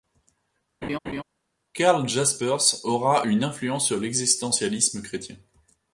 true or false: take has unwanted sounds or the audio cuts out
true